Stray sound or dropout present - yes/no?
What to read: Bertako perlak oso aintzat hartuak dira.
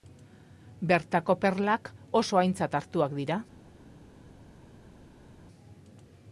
no